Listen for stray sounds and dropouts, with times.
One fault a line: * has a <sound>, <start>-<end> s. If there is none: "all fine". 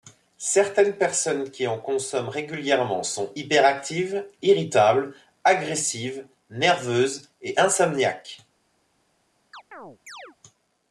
* has a chirp, 9.5-10.4 s